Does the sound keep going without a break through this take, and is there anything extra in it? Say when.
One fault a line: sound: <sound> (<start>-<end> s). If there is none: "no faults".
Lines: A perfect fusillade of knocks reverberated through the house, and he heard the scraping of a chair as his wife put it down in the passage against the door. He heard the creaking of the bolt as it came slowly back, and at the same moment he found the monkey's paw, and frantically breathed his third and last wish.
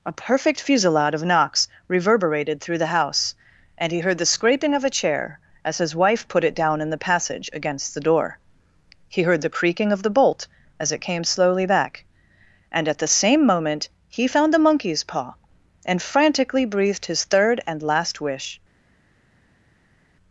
no faults